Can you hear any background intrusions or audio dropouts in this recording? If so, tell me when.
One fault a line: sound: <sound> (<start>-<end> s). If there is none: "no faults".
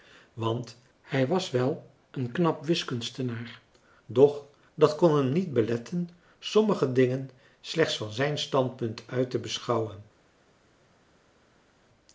no faults